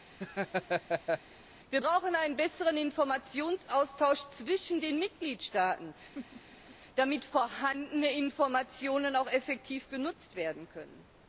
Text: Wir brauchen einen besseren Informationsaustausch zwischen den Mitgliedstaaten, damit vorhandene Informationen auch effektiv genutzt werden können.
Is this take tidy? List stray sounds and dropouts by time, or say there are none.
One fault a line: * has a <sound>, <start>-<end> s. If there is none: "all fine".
* has a laugh, 0.2-1.2 s
* has a laugh, 6.1-6.8 s